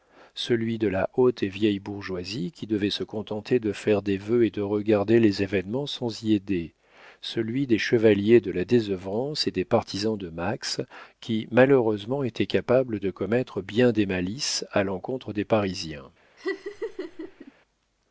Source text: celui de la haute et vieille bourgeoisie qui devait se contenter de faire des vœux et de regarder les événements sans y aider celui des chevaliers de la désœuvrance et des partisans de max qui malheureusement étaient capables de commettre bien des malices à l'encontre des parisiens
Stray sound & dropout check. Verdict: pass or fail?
fail